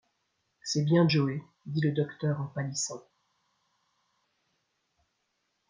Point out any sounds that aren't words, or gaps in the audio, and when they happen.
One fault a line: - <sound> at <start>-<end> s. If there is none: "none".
none